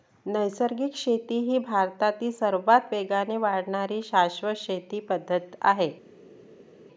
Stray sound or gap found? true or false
false